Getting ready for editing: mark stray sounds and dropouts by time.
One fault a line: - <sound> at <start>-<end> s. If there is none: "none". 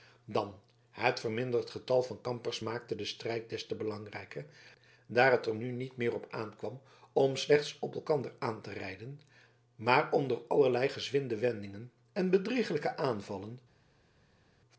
none